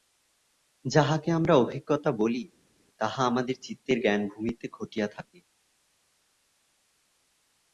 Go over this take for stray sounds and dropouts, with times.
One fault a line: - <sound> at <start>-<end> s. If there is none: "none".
none